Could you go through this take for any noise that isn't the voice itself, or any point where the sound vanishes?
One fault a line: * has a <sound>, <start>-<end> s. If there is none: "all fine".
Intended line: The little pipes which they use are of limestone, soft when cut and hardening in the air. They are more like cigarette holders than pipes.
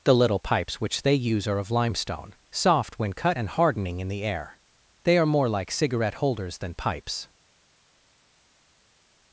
all fine